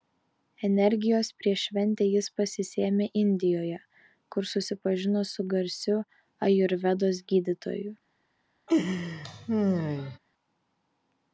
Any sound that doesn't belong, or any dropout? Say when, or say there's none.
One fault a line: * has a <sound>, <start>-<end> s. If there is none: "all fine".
* has a laugh, 8.7-10.2 s